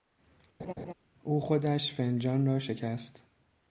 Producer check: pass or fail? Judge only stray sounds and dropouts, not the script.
fail